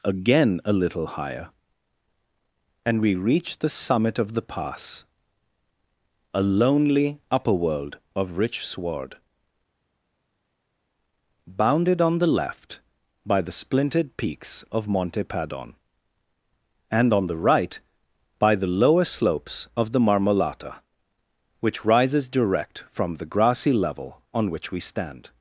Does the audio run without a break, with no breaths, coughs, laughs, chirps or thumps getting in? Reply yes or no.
yes